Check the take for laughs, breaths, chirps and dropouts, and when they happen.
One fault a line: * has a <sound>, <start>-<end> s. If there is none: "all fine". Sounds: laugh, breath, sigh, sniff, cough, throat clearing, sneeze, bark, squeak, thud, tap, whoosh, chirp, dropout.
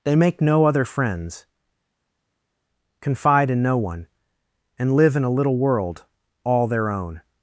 all fine